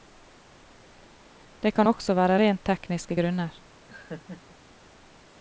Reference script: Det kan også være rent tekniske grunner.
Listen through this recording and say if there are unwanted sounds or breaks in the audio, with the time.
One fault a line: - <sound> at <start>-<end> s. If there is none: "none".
- laugh at 3.9-4.6 s